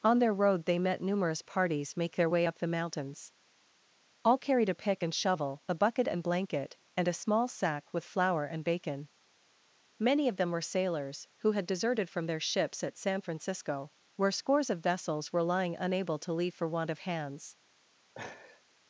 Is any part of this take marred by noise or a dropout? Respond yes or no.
yes